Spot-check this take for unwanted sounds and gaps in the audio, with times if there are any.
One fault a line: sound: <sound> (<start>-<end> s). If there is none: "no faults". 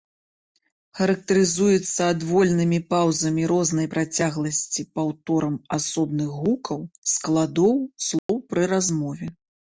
sound: dropout (8.2-8.3 s)